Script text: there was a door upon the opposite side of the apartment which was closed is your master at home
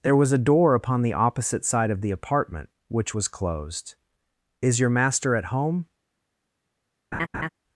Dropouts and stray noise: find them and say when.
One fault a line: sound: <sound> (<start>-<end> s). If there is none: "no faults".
sound: laugh (7.1-7.5 s)